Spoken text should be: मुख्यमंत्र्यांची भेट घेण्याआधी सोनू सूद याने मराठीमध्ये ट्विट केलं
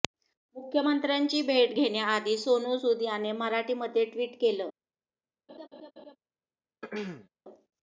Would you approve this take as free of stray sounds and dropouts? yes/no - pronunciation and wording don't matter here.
no